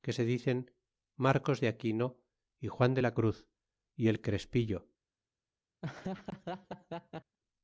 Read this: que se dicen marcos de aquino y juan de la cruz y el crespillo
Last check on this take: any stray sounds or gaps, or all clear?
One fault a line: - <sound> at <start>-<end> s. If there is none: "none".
- laugh at 5.8-7.4 s